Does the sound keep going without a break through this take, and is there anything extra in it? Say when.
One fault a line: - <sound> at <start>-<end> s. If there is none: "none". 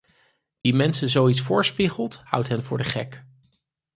- dropout at 0.6-0.7 s